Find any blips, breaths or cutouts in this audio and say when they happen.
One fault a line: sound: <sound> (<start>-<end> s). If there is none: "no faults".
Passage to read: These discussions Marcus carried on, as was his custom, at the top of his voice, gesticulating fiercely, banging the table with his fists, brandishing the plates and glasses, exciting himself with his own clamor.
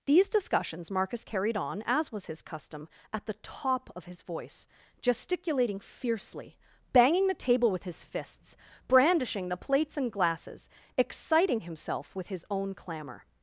no faults